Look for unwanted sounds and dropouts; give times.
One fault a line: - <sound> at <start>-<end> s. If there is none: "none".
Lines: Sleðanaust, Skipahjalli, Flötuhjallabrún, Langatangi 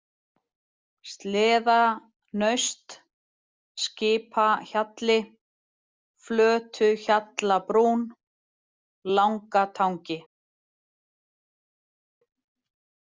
none